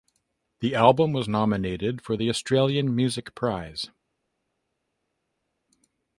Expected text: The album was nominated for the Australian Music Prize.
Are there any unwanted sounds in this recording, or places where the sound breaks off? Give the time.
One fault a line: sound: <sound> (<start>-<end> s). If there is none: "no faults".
no faults